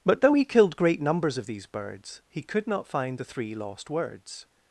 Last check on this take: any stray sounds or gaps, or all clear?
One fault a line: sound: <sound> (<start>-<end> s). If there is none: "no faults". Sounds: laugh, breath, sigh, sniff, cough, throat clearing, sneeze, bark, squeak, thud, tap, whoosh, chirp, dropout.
no faults